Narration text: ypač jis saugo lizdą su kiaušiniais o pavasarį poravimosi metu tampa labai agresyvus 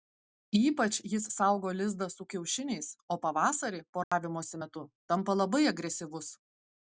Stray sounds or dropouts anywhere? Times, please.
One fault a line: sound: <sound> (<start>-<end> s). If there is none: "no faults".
sound: dropout (4.0-4.1 s)